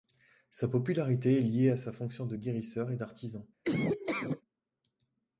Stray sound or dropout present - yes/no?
yes